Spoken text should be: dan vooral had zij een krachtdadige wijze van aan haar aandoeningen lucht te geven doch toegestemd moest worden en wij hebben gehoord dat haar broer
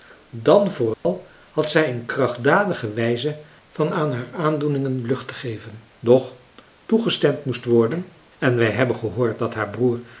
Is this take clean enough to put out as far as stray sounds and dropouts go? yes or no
no